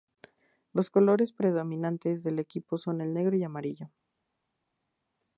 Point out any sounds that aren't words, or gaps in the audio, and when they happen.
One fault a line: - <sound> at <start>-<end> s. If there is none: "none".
none